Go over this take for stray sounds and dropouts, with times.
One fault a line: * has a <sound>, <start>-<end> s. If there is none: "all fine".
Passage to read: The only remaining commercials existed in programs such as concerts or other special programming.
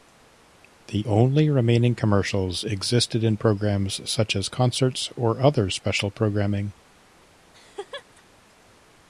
* has a laugh, 7.5-8.2 s